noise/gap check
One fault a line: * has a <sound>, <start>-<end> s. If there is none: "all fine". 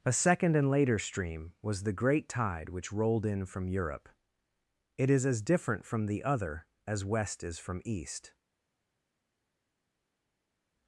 all fine